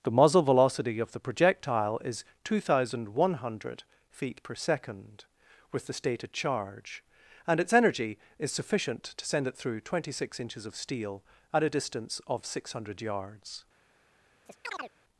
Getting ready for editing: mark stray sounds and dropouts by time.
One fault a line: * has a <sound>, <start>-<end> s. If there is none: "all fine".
* has a chirp, 14.5-14.9 s